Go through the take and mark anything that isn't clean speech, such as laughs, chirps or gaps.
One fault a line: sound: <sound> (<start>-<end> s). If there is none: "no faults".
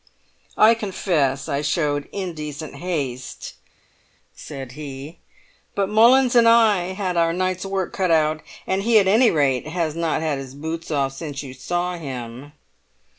no faults